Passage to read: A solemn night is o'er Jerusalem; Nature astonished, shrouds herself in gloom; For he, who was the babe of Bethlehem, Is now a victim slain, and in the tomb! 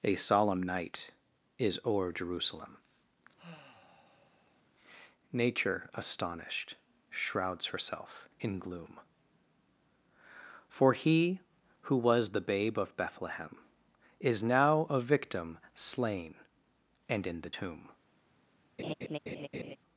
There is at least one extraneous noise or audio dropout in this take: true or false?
true